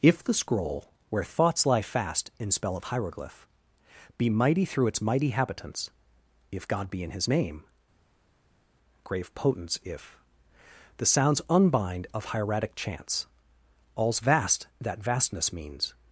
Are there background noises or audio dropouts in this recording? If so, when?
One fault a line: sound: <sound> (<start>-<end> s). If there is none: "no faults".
no faults